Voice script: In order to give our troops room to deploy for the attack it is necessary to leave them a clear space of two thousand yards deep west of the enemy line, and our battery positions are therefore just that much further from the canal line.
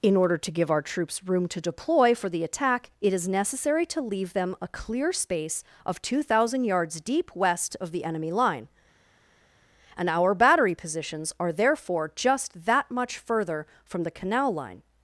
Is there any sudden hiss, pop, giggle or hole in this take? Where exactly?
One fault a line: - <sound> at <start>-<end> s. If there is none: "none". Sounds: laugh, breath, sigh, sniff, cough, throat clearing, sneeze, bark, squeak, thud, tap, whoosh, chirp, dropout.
none